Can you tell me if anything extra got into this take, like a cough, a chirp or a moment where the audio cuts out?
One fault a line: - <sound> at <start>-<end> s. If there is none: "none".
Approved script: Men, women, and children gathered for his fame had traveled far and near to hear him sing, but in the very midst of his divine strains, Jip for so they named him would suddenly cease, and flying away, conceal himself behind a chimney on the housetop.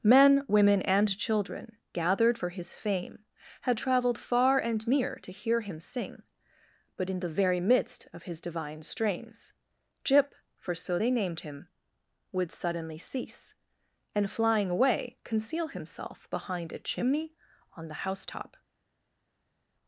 none